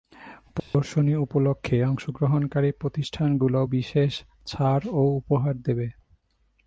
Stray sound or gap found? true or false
true